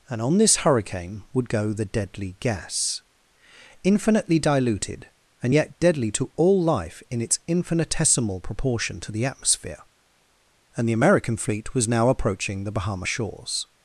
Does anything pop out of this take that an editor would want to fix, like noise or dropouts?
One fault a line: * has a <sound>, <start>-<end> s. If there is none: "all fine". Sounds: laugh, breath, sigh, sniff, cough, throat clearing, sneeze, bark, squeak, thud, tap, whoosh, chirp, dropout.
all fine